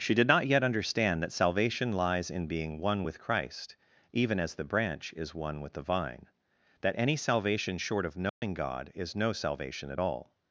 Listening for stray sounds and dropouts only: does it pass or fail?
fail